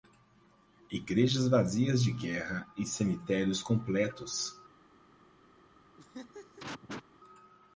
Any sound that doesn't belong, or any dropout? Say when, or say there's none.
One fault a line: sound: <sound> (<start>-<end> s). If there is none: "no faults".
sound: laugh (6.0-7.0 s)